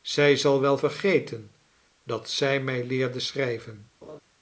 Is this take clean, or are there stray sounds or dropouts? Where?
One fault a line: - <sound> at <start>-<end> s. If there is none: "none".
- laugh at 4.0-4.2 s